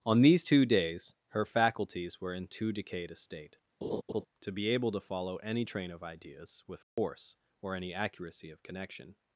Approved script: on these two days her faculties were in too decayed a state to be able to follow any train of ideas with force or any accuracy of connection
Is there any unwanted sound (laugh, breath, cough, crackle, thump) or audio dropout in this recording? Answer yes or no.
yes